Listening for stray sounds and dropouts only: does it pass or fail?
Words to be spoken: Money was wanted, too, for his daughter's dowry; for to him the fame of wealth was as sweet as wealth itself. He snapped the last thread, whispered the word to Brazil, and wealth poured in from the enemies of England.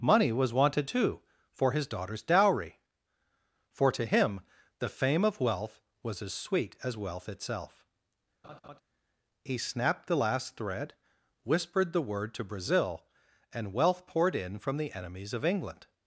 fail